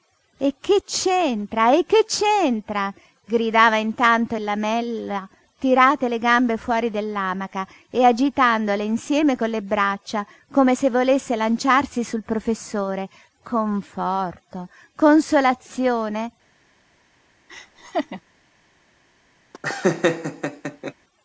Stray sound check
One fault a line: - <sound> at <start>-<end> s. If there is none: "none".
- laugh at 17.5-18.2 s
- laugh at 19.5-20.9 s